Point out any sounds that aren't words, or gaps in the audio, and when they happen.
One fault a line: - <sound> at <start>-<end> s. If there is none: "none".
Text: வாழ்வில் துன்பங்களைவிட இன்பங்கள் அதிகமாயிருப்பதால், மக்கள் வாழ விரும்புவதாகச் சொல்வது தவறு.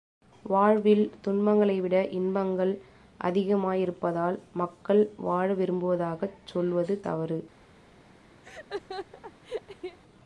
- laugh at 8.4-10.0 s